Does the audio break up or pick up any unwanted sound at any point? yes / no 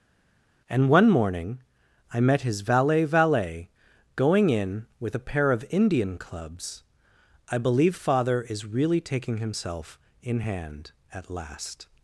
no